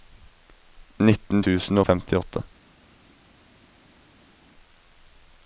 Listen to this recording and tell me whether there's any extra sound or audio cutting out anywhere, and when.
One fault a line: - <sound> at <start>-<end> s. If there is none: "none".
none